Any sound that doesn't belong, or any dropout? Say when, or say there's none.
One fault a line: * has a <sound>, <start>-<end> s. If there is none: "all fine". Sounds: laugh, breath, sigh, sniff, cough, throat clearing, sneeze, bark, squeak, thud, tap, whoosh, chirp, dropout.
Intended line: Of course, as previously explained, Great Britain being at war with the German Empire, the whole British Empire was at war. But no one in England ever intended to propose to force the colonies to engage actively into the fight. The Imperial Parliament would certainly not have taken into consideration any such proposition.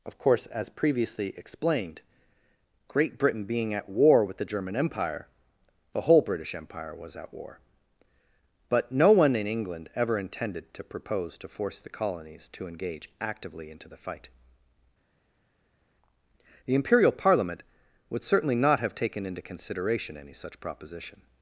all fine